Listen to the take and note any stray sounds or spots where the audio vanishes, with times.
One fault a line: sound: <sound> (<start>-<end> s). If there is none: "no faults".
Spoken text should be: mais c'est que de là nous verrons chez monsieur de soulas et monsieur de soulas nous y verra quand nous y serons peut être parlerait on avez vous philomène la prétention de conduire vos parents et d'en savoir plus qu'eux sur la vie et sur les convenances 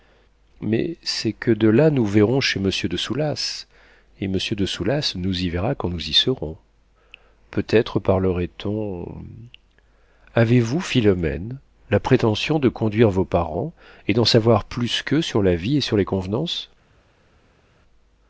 no faults